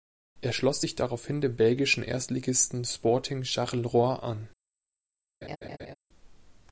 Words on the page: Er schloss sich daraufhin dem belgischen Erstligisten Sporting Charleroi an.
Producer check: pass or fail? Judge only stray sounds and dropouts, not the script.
fail